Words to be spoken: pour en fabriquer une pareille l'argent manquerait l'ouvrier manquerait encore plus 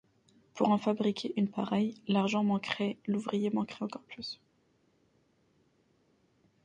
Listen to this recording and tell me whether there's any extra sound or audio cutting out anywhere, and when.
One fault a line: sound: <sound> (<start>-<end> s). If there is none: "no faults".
no faults